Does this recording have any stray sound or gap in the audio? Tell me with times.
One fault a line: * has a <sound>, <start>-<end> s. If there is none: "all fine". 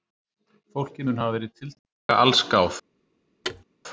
* has a dropout, 2.0-2.1 s
* has a thud, 3.4-3.6 s